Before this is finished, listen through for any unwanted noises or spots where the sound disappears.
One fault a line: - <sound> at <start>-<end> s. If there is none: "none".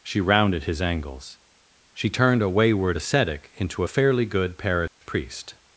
- dropout at 4.9-5.0 s